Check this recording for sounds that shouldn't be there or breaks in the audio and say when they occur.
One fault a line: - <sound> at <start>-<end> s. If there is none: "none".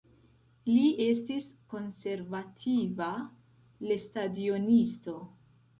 none